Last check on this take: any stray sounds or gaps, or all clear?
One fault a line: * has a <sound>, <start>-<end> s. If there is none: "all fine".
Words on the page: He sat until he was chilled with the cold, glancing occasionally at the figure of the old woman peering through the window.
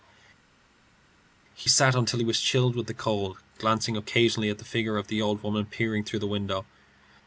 all fine